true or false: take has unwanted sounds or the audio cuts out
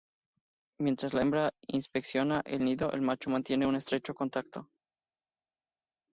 false